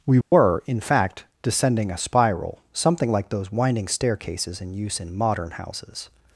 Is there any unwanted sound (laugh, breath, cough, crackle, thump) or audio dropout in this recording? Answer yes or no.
yes